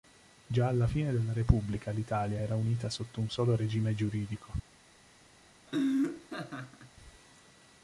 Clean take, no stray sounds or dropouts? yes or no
no